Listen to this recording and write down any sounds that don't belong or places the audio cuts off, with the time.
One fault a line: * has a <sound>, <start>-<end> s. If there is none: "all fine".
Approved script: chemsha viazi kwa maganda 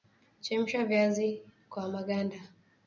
all fine